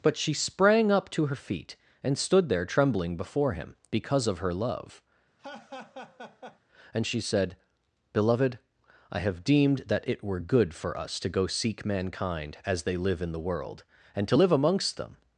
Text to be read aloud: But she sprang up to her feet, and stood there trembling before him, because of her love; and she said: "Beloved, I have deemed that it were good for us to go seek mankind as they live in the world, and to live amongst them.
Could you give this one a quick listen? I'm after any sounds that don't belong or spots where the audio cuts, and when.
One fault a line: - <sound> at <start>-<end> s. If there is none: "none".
- laugh at 5.4-6.6 s